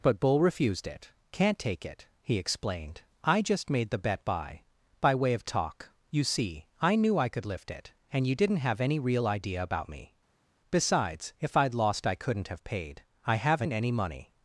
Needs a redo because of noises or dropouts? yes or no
no